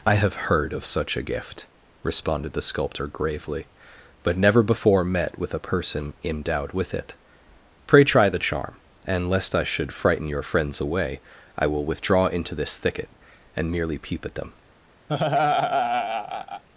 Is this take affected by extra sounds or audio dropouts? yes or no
yes